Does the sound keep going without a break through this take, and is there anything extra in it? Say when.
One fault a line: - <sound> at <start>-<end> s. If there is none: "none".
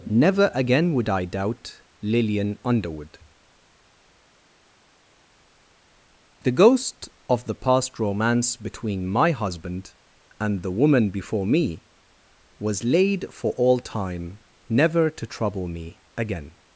none